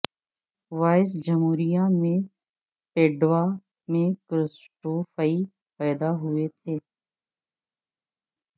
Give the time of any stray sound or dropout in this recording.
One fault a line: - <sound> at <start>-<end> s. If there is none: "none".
none